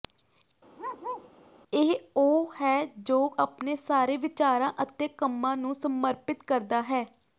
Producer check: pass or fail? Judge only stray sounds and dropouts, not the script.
fail